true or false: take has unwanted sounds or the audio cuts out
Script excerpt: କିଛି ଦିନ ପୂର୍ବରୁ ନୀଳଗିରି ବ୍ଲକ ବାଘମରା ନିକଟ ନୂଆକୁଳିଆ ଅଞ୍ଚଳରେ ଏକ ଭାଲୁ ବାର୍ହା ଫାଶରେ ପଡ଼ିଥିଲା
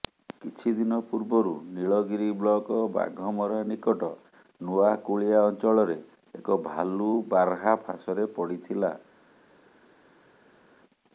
false